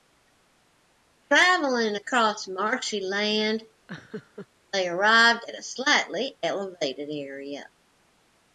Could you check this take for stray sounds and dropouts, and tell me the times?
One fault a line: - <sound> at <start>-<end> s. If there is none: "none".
- laugh at 3.9-4.5 s